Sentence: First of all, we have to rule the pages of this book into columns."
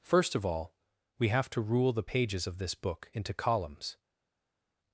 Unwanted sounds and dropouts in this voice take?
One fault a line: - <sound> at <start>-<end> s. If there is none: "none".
none